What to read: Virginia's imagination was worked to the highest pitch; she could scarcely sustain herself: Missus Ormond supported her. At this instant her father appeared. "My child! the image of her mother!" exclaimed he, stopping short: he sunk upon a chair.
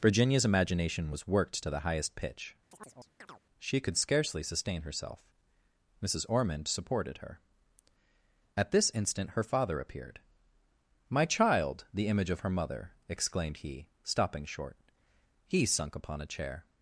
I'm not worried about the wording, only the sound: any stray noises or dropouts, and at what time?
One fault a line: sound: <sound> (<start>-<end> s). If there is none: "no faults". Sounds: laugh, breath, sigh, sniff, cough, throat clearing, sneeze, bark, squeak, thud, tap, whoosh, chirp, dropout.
sound: chirp (2.7-3.4 s)